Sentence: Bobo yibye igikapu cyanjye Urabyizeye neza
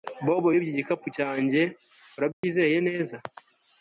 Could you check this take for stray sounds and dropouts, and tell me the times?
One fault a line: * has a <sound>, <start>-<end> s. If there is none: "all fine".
* has a dropout, 2.3-2.4 s